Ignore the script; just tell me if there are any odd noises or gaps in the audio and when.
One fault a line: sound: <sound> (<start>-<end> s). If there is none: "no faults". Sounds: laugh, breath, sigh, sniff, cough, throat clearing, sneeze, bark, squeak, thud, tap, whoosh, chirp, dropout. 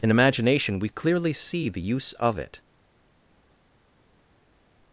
no faults